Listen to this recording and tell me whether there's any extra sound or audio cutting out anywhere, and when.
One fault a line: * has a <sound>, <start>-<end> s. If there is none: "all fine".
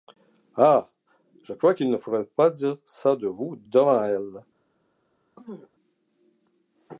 * has a throat clearing, 5.4-5.7 s